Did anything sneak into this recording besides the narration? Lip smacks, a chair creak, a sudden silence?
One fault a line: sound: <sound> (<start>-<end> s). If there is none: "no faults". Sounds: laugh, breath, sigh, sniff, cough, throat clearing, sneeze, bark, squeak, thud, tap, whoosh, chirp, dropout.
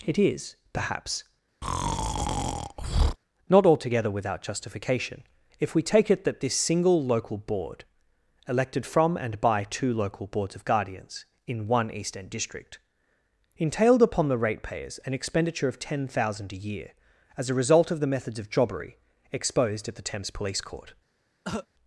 sound: breath (1.6-3.2 s)
sound: cough (21.4-21.7 s)